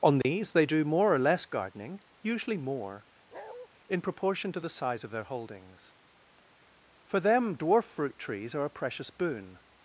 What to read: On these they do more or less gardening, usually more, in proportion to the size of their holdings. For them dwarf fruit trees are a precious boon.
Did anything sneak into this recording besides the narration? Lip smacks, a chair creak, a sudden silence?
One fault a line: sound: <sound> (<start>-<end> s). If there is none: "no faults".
sound: dropout (0.2-0.2 s)
sound: bark (3.3-3.7 s)